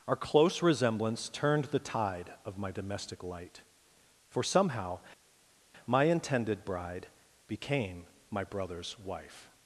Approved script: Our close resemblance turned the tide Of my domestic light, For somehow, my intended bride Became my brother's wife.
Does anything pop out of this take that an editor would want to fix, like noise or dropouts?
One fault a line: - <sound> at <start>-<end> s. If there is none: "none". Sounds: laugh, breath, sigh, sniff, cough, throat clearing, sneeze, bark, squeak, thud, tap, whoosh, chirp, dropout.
none